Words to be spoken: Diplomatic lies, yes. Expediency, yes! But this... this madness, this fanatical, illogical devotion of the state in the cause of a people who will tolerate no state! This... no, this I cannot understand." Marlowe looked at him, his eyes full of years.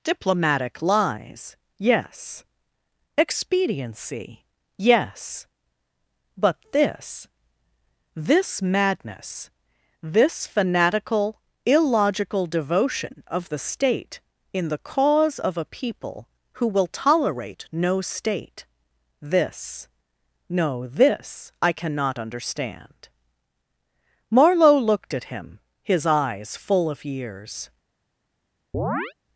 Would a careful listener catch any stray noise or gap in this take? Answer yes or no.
yes